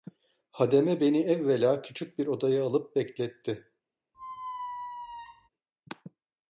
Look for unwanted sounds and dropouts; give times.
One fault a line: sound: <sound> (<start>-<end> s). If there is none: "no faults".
sound: squeak (4.1-5.5 s)